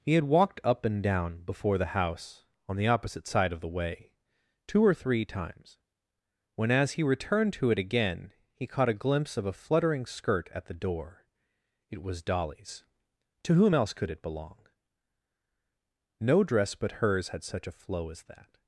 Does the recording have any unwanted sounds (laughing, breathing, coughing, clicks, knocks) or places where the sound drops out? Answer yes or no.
no